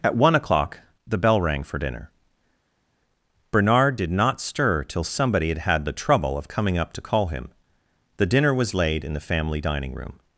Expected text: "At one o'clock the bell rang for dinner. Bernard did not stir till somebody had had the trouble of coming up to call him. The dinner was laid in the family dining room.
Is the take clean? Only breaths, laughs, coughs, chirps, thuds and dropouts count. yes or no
yes